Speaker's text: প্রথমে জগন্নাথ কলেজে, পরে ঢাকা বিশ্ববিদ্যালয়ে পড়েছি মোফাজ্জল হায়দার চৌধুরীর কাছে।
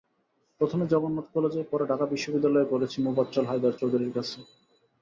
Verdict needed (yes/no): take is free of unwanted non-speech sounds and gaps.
yes